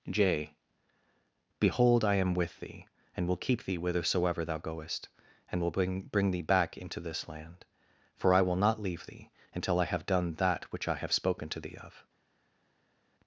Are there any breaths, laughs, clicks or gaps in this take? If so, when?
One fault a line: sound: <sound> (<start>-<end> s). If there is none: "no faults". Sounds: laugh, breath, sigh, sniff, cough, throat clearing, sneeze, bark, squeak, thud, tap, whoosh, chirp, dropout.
no faults